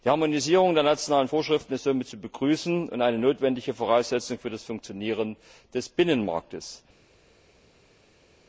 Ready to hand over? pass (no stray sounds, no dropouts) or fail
pass